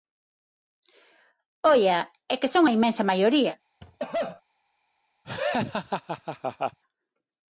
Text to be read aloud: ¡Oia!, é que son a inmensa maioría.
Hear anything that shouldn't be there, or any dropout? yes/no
yes